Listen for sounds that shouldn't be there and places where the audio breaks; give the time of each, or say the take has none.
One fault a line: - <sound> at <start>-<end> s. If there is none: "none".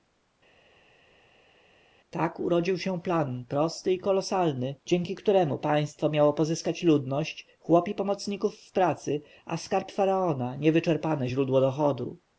none